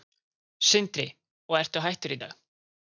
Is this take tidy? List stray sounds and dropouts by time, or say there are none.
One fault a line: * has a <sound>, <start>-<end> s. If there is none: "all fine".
all fine